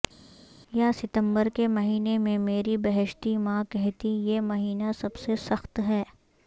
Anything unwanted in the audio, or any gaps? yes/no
no